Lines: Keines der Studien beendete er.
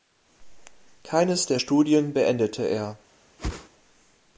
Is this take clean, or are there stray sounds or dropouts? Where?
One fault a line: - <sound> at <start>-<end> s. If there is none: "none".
- whoosh at 3.4-3.7 s